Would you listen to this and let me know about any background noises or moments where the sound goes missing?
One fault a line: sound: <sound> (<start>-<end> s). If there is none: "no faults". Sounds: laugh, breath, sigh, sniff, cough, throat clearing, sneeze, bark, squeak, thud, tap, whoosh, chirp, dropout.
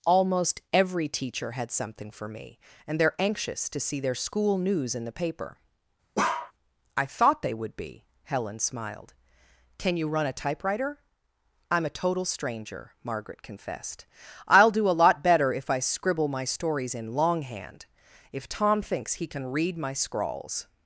sound: bark (6.2-6.5 s)